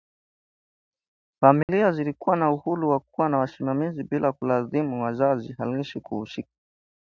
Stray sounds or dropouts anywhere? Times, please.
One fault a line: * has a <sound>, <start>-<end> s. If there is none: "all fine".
* has a dropout, 1.6-1.7 s